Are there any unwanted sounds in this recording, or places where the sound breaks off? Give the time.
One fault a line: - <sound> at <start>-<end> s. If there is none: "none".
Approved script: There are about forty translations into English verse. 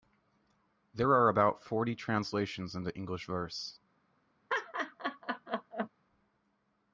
- laugh at 4.5-5.9 s